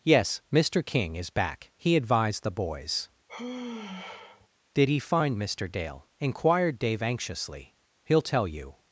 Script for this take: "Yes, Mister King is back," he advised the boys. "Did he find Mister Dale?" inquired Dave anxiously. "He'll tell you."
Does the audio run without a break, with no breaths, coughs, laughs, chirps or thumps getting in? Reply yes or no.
no